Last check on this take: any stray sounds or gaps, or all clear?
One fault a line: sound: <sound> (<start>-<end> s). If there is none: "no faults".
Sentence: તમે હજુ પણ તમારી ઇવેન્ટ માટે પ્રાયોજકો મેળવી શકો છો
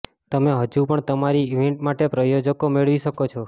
no faults